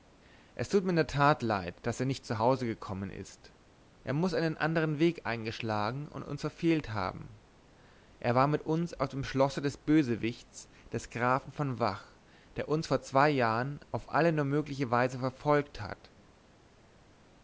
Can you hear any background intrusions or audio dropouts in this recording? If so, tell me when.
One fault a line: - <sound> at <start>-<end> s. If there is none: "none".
none